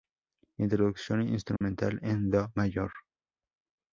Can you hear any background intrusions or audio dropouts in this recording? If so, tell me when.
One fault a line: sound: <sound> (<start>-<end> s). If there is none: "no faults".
sound: dropout (1.6-1.6 s)